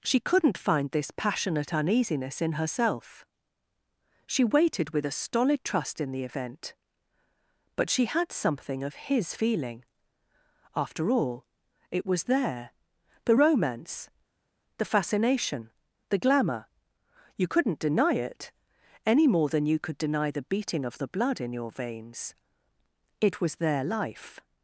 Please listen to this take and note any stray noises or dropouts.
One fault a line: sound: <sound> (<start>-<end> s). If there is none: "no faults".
no faults